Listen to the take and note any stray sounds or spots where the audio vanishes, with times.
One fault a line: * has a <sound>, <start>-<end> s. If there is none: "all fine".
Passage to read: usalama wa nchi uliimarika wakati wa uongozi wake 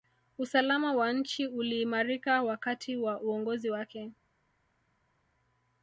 all fine